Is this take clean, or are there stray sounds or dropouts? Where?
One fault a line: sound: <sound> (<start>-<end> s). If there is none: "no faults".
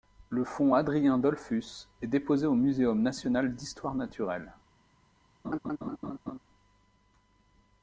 sound: laugh (5.4-6.4 s)